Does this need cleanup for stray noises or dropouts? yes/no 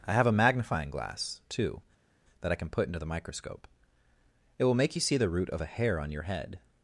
no